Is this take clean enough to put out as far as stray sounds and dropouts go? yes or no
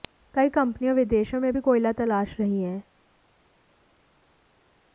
yes